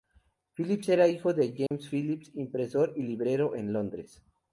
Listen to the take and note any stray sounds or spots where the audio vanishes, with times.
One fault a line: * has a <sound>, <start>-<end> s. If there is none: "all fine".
* has a dropout, 1.7-1.7 s